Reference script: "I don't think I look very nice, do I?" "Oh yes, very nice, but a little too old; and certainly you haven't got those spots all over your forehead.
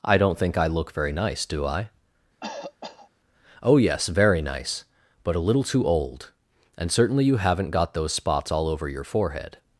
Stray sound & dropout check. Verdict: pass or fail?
fail